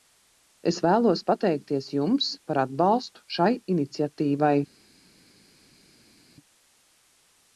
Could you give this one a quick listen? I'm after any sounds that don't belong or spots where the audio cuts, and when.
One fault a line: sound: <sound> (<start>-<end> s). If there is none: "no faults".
no faults